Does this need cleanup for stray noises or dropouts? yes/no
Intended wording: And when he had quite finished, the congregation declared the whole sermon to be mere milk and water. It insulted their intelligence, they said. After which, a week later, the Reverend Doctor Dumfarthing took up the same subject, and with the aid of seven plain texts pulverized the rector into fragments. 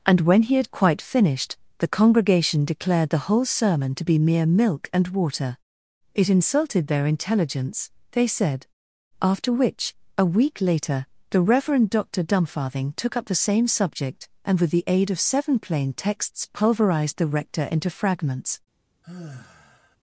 yes